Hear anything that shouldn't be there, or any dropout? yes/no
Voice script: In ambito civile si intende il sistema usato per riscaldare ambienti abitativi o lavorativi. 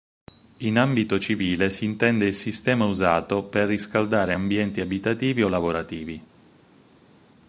no